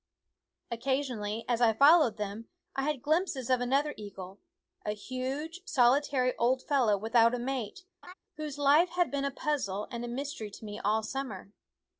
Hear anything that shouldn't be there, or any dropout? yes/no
yes